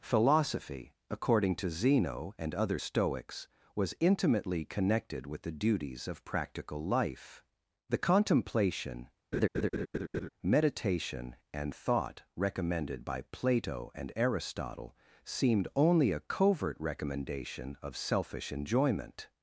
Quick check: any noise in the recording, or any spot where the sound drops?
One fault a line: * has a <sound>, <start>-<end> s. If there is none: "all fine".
* has a laugh, 9.3-10.3 s